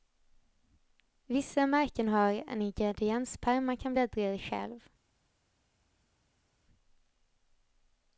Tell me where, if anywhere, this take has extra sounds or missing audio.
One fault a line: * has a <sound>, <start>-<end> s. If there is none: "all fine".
all fine